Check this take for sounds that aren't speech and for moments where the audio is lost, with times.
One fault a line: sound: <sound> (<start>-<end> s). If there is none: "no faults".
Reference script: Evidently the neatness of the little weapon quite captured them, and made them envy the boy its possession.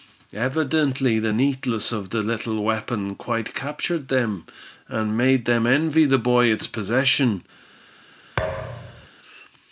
sound: thud (8.4-9.1 s)